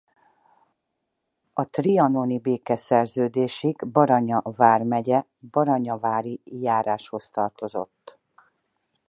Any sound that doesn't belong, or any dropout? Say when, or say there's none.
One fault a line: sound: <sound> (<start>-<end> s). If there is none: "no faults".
no faults